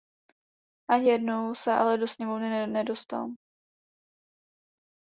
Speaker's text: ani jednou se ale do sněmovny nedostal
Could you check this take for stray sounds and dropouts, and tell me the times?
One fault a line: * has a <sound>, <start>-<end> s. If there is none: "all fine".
all fine